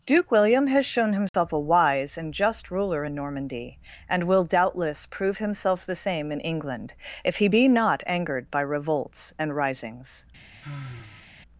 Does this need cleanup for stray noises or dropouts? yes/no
yes